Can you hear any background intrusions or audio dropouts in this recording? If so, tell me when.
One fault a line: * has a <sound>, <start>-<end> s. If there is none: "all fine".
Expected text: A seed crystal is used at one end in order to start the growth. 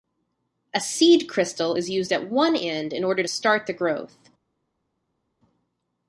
all fine